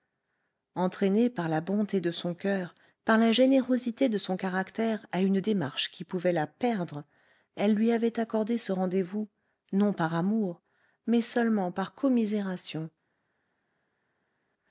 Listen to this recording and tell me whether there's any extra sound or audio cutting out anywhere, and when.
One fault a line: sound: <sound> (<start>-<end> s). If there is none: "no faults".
no faults